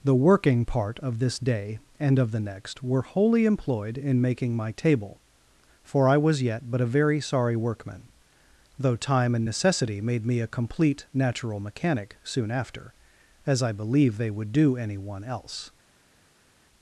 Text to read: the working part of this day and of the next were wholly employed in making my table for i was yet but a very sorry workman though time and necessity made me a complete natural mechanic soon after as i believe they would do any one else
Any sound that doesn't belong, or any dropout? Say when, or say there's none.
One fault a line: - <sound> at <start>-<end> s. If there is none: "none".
none